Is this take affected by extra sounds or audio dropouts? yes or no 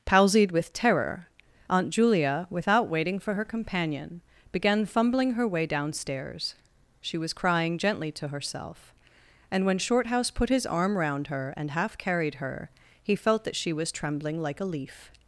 no